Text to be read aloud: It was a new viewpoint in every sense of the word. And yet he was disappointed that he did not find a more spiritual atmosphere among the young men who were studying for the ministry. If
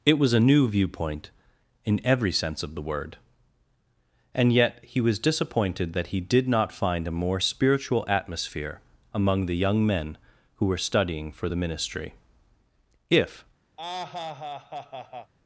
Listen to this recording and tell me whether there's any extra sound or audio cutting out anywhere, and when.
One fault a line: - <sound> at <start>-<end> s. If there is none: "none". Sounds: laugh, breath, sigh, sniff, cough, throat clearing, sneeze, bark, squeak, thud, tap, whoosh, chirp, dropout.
- laugh at 13.8-15.3 s